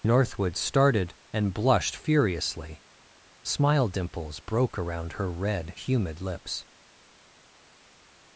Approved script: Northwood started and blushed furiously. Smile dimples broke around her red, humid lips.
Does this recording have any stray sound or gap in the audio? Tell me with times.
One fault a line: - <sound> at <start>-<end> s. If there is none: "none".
none